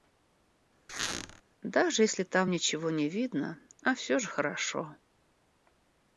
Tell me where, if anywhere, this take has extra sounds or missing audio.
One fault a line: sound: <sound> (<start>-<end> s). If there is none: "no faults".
sound: squeak (0.9-1.4 s)